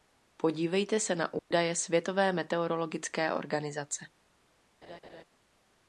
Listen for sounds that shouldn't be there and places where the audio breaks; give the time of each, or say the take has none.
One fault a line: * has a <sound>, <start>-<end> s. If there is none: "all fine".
* has a dropout, 1.4-1.5 s
* has a laugh, 4.8-5.2 s